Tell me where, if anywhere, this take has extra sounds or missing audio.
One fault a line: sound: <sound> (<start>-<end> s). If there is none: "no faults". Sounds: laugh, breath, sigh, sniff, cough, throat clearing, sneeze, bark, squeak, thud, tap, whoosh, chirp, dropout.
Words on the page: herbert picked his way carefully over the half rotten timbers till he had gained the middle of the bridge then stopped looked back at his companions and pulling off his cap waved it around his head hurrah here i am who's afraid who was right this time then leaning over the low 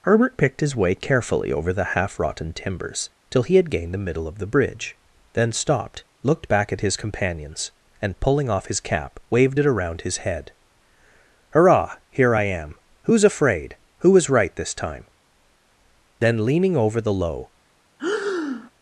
sound: breath (18.0-18.7 s)